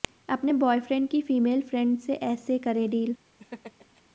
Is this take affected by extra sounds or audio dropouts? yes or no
yes